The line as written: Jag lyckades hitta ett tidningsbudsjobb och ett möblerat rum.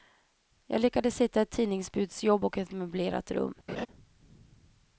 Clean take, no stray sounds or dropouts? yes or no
no